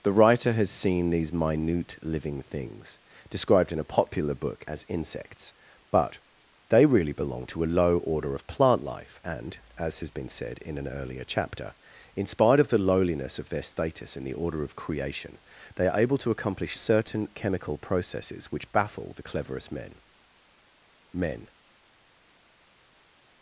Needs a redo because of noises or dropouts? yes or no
no